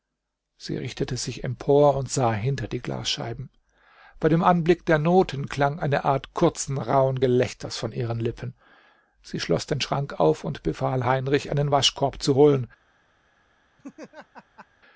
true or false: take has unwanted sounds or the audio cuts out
true